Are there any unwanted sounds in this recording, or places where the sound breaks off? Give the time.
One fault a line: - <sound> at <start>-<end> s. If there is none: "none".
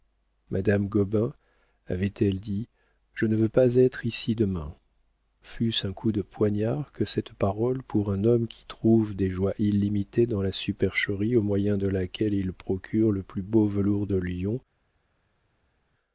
none